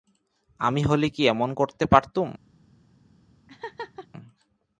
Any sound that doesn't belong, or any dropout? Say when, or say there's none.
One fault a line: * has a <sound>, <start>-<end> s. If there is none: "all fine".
* has a laugh, 3.5-4.1 s